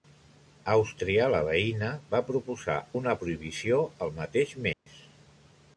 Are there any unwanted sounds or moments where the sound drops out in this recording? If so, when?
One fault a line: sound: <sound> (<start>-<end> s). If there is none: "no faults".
sound: dropout (4.7-4.9 s)